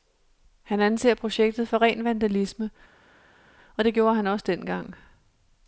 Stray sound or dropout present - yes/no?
no